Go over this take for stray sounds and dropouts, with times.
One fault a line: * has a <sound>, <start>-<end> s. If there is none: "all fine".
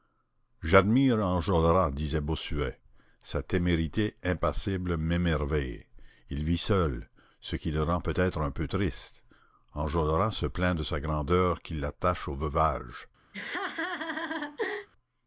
* has a laugh, 13.3-14.9 s